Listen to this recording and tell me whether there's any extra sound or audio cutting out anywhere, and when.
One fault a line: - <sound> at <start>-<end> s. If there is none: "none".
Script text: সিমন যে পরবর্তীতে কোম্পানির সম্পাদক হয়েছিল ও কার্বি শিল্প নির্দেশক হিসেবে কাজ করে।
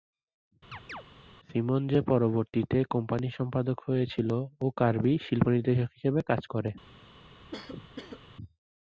- chirp at 0.7-1.0 s
- cough at 7.5-8.2 s